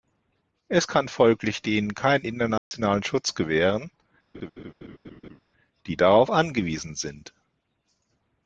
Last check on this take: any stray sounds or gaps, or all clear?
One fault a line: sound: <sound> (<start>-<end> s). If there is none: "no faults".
sound: dropout (2.6-2.7 s)
sound: laugh (4.3-5.4 s)